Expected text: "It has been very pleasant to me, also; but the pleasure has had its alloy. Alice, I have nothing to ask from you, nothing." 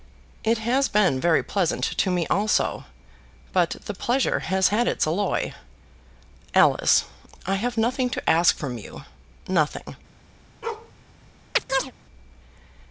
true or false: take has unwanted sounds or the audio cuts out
true